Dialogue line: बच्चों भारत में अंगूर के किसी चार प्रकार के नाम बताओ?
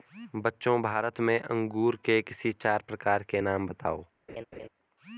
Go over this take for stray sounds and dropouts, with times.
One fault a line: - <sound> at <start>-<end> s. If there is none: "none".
- laugh at 4.3-4.7 s